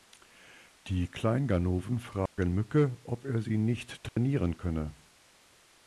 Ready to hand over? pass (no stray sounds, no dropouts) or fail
fail